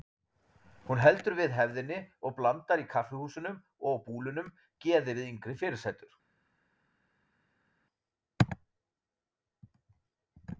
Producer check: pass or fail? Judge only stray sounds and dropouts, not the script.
pass